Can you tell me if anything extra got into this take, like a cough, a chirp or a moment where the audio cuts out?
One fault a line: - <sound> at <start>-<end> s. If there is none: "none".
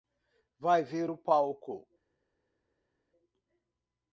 none